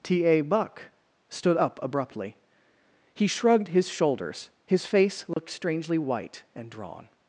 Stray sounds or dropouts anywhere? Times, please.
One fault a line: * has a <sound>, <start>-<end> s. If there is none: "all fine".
* has a dropout, 5.3-5.4 s